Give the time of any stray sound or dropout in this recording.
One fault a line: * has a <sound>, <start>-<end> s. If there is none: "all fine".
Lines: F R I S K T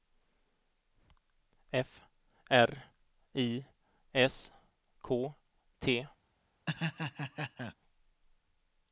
* has a laugh, 6.7-7.8 s